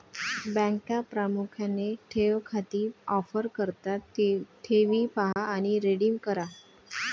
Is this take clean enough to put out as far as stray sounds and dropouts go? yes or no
no